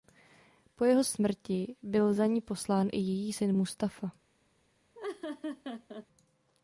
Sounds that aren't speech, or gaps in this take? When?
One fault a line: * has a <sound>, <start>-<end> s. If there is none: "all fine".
* has a laugh, 4.9-6.1 s